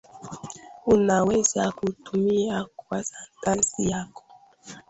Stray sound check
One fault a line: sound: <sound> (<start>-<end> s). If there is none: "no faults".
no faults